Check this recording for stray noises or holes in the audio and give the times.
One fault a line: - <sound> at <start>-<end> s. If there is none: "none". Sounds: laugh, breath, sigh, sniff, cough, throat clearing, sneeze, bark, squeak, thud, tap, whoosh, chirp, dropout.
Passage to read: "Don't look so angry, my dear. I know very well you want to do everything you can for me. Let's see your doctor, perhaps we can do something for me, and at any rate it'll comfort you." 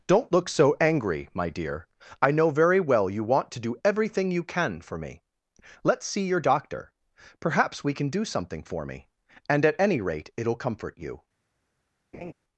- laugh at 12.1-12.3 s